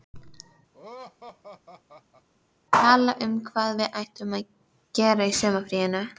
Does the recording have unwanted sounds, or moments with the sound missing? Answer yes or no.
yes